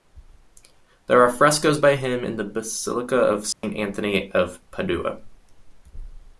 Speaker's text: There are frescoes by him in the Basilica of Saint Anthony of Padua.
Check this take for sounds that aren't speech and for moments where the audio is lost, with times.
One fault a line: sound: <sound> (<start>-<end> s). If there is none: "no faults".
sound: dropout (3.5-3.6 s)